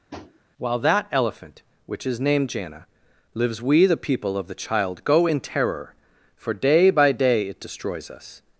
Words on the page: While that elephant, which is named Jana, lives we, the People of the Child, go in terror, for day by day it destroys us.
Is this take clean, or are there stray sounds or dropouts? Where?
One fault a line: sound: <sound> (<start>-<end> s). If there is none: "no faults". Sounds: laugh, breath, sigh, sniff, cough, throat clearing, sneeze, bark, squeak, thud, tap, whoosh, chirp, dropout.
sound: tap (0.1-0.4 s)